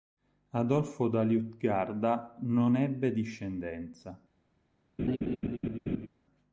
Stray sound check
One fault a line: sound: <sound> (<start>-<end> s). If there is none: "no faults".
sound: laugh (5.0-6.1 s)